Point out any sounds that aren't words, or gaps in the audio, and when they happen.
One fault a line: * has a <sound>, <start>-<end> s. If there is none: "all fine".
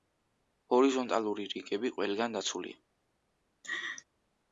* has a laugh, 3.6-4.0 s